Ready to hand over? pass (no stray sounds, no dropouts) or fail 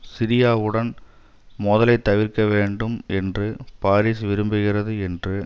pass